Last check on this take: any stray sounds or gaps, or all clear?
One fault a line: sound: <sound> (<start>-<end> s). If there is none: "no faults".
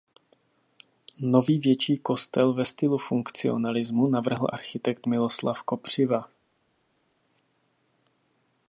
no faults